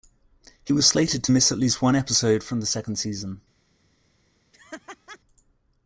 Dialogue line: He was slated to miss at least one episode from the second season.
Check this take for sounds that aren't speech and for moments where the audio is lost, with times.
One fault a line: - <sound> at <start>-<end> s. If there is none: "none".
- laugh at 4.5-5.2 s